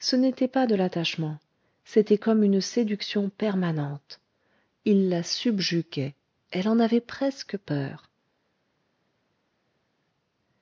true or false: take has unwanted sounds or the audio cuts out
false